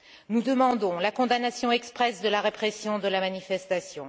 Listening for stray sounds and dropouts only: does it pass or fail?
pass